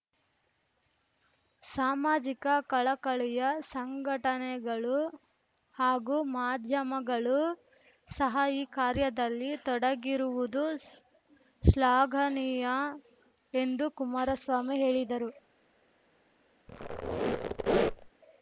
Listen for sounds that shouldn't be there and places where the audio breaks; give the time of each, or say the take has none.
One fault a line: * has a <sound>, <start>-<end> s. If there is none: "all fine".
* has a squeak, 16.7-18.1 s